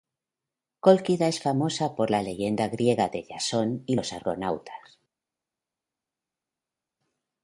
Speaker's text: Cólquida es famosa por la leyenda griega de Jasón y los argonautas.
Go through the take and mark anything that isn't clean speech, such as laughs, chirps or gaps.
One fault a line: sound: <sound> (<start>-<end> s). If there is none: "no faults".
no faults